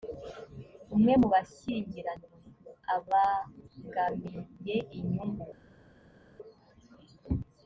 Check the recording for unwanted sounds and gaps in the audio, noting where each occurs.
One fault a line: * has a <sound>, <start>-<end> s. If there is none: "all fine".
all fine